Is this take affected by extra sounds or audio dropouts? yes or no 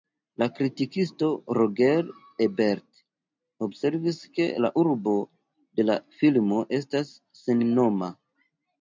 no